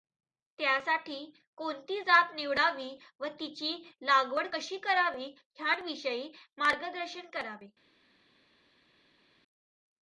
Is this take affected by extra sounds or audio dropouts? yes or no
no